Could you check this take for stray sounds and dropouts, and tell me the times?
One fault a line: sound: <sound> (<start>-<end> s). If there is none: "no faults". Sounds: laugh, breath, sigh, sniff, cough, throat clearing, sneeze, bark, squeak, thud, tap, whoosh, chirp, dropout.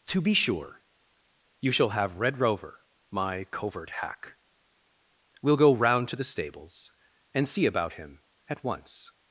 no faults